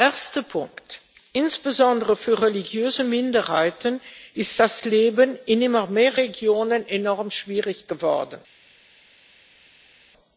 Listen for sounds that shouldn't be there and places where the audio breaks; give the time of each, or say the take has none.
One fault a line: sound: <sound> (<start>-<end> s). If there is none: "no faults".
no faults